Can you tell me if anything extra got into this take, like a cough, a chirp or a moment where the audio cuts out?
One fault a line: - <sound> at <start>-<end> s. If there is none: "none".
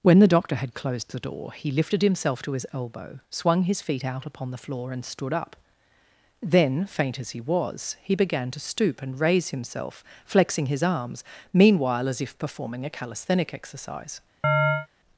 - chirp at 14.4-14.9 s